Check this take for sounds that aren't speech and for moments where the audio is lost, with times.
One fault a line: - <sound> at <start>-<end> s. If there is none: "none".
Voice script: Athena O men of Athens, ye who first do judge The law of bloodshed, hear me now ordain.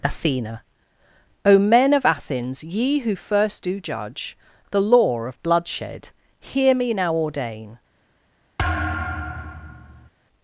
- thud at 8.6-10.1 s